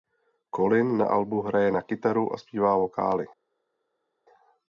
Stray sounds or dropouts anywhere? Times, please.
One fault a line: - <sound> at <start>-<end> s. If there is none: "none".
none